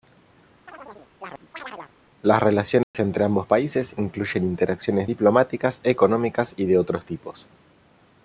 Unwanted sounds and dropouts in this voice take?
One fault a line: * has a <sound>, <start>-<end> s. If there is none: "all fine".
* has a chirp, 0.7-1.9 s
* has a dropout, 2.8-2.9 s